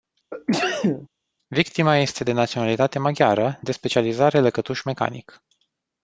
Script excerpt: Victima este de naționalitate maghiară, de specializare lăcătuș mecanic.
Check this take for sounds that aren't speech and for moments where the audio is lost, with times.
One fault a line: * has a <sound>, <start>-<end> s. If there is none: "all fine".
* has a sneeze, 0.3-1.1 s